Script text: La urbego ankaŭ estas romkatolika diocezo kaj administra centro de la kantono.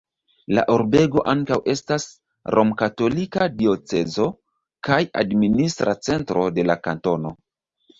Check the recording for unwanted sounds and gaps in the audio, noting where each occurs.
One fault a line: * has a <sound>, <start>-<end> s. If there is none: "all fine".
all fine